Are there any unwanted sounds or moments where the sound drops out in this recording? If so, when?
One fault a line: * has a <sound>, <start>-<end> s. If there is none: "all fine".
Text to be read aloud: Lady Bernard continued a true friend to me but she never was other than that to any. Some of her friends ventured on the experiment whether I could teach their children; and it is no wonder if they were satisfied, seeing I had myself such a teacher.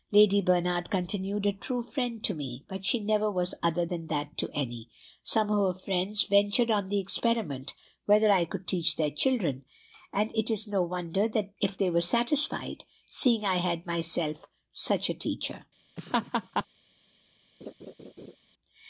* has a laugh, 16.0-16.7 s
* has a laugh, 17.6-18.4 s